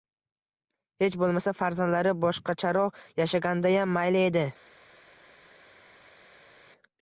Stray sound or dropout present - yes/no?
no